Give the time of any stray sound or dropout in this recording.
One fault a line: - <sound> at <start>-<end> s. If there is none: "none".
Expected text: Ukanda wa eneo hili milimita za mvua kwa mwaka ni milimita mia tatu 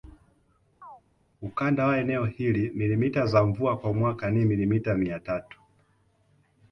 - chirp at 0.8-1.0 s